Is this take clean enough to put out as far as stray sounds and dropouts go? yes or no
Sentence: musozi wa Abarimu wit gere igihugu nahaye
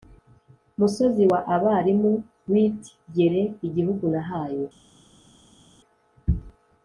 yes